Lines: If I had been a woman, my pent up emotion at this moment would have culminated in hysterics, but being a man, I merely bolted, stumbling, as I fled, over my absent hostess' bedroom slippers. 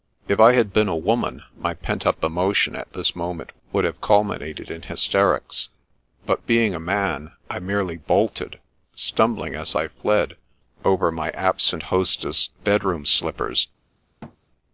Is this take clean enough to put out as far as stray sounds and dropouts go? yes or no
no